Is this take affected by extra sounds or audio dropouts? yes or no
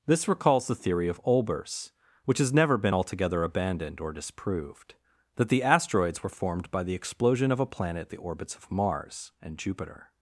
no